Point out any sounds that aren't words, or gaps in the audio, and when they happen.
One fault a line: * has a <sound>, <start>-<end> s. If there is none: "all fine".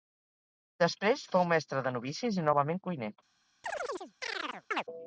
* has a chirp, 3.6-4.8 s